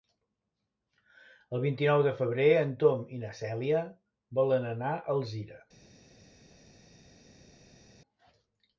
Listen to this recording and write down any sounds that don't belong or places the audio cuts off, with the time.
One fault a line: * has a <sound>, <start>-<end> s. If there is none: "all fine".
all fine